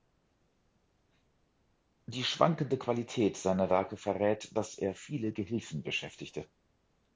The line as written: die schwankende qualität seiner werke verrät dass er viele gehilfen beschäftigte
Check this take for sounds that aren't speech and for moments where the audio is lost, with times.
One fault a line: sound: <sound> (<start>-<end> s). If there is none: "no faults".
no faults